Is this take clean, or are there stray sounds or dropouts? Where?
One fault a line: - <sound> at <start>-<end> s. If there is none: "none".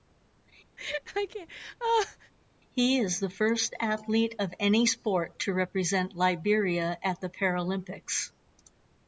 - laugh at 0.8-2.3 s